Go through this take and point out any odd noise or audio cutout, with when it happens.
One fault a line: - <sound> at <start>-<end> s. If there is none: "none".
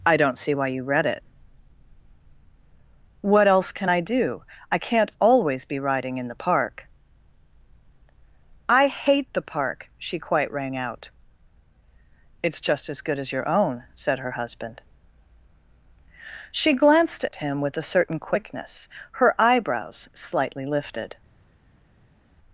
none